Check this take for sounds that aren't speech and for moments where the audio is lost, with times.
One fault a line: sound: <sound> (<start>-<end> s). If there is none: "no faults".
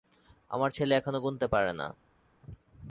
no faults